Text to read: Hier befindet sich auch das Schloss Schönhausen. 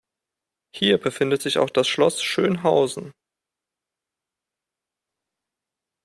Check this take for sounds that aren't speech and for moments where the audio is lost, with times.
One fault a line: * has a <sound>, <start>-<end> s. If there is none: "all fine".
all fine